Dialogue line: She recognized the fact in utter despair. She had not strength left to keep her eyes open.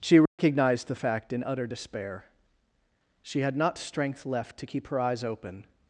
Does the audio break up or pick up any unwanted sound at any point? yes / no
yes